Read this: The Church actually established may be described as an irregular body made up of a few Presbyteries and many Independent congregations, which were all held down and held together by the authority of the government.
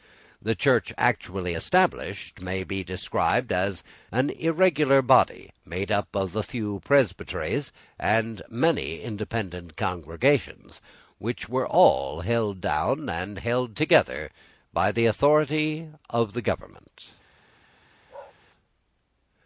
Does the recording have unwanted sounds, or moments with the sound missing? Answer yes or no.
yes